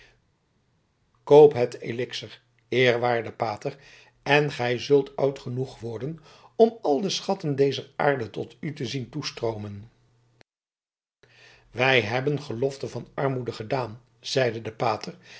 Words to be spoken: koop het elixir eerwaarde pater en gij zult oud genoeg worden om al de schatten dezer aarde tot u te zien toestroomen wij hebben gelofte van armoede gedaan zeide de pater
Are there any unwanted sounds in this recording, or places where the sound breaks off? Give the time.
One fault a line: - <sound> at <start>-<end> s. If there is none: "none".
none